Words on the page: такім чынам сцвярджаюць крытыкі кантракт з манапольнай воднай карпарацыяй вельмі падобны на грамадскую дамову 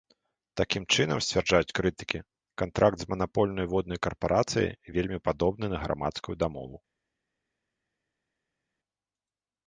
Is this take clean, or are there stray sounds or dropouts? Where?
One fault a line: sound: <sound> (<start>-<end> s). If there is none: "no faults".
no faults